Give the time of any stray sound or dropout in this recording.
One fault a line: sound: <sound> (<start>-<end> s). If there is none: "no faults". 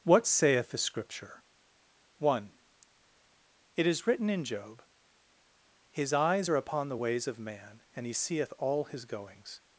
no faults